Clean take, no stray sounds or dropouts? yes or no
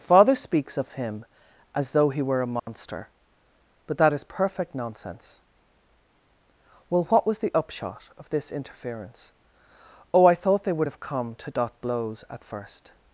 no